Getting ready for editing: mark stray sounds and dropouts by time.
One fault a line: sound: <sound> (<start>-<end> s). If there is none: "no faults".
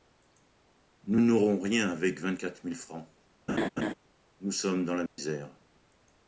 sound: laugh (3.5-3.9 s)
sound: dropout (5.1-5.2 s)